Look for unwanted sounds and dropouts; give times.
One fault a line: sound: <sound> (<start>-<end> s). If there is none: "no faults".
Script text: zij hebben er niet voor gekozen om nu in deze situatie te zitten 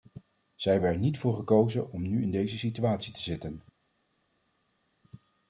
no faults